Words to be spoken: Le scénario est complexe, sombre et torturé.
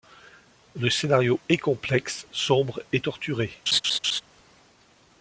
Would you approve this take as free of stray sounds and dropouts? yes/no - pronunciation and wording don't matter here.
no